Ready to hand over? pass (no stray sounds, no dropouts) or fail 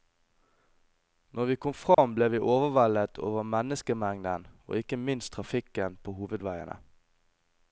fail